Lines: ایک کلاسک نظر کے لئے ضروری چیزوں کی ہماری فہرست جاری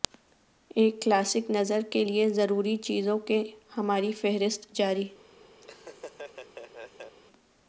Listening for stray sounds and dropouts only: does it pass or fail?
fail